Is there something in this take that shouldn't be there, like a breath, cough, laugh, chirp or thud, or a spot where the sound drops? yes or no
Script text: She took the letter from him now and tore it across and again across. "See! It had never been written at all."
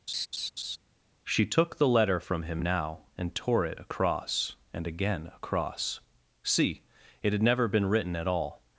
yes